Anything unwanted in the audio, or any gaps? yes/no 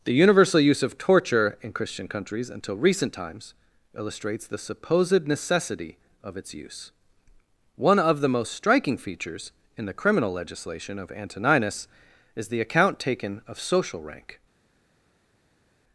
no